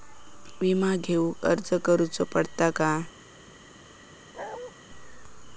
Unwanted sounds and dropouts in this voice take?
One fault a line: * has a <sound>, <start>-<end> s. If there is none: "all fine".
* has a bark, 4.3-4.7 s